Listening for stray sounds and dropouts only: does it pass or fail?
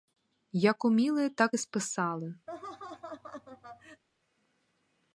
fail